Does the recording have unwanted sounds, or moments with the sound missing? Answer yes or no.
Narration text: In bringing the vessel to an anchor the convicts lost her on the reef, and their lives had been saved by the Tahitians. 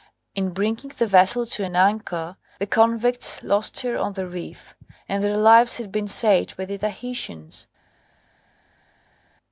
no